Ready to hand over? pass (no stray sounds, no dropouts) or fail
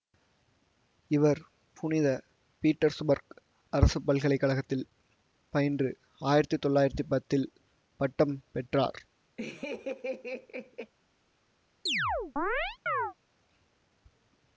fail